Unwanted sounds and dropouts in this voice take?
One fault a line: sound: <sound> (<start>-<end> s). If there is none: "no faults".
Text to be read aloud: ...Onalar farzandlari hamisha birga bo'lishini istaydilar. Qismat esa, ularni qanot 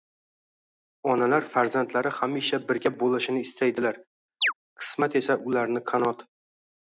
sound: chirp (4.4-4.5 s)